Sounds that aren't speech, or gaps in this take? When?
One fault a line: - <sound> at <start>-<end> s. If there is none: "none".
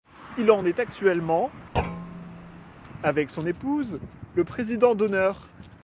- thud at 1.7-2.7 s